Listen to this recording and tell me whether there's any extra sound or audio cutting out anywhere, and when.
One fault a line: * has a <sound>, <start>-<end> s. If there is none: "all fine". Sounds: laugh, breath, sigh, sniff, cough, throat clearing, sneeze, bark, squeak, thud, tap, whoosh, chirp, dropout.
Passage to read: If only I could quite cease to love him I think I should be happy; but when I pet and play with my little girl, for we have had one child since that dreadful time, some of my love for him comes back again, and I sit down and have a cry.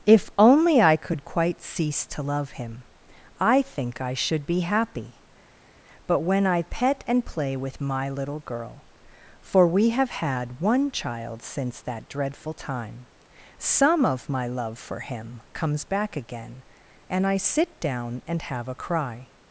all fine